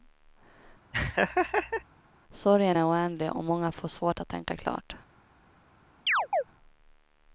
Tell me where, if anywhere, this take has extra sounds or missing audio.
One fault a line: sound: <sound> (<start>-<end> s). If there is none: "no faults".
sound: laugh (0.9-1.8 s)
sound: chirp (6.1-6.4 s)